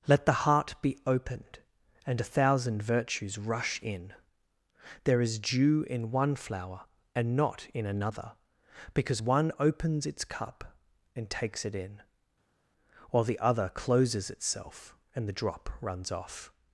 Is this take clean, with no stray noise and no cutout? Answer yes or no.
yes